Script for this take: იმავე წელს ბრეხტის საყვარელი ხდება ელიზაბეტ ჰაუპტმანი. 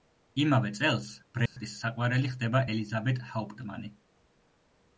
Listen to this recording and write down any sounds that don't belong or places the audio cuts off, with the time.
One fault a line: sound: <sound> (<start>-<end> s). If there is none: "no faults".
sound: dropout (1.5-1.6 s)